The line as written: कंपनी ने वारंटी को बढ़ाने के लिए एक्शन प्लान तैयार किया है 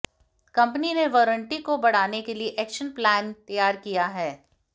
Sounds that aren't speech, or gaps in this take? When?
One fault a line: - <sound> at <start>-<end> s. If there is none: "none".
none